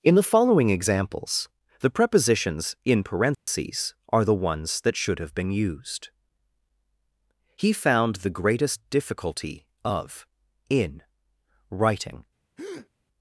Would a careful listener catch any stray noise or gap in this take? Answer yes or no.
yes